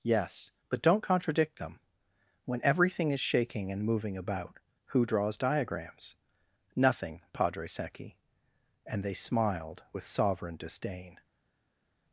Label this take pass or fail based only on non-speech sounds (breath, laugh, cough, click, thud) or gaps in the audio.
pass